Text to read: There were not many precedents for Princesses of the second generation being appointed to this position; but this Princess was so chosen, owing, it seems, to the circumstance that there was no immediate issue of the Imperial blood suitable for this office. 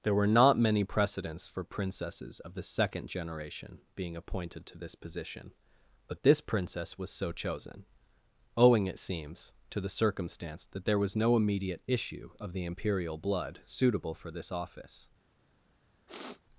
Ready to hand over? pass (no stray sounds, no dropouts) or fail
fail